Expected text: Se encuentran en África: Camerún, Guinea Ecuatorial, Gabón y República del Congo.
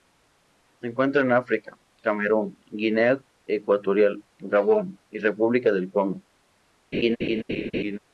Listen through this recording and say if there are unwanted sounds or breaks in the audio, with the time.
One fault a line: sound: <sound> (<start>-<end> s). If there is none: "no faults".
sound: laugh (6.9-8.0 s)